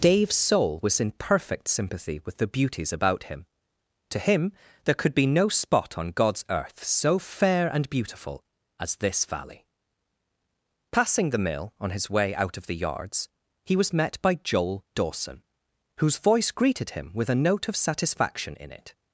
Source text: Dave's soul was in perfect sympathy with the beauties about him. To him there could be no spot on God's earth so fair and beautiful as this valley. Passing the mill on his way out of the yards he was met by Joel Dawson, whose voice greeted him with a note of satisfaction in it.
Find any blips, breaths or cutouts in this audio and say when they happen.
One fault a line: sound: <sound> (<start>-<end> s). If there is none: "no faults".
no faults